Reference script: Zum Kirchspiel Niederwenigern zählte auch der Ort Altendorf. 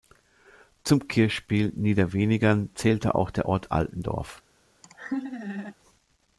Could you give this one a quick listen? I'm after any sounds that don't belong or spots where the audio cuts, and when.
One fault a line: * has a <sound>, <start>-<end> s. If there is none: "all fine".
* has a laugh, 4.8-5.8 s